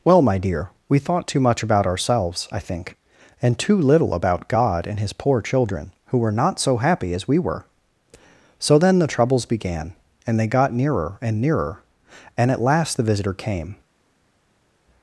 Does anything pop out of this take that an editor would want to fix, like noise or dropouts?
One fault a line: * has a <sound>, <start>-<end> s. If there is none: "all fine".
all fine